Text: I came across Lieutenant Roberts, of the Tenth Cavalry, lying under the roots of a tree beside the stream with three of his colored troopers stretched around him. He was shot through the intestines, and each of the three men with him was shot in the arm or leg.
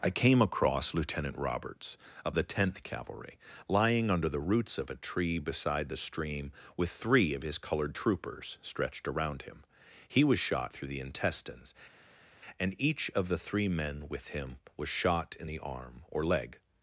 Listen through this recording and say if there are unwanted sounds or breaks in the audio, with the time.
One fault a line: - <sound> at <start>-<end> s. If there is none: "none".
none